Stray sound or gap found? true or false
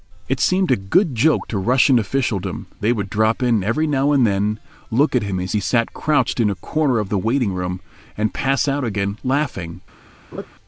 true